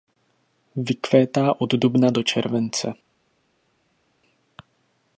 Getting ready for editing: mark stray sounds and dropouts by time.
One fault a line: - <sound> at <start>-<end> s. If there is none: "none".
none